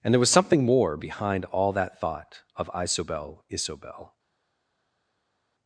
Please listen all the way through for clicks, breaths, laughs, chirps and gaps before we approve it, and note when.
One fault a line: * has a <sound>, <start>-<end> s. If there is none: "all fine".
all fine